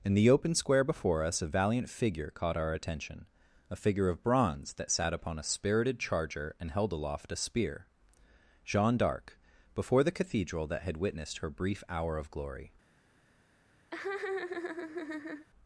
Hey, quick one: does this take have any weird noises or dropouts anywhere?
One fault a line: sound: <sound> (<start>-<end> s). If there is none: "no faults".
sound: laugh (13.9-15.5 s)